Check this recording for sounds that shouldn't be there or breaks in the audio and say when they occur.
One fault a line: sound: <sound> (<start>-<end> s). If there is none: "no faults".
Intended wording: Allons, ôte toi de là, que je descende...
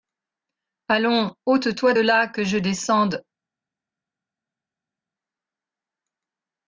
no faults